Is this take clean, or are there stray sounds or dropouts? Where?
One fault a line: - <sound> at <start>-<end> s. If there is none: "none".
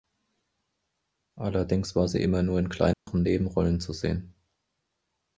- dropout at 2.9-3.1 s